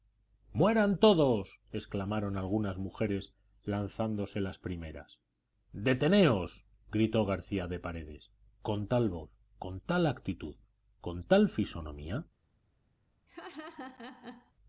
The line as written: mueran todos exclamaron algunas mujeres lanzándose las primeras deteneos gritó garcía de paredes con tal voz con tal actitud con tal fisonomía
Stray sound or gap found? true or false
true